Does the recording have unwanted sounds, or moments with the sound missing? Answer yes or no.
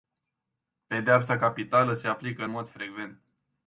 no